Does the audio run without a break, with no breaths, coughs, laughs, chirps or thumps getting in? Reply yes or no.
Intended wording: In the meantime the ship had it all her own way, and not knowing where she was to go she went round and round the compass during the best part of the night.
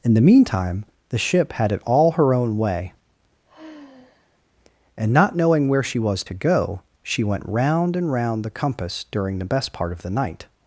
no